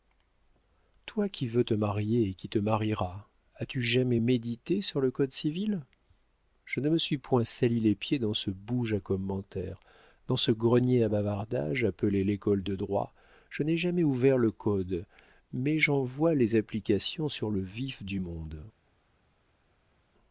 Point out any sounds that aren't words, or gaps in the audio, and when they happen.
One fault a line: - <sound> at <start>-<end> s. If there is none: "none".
none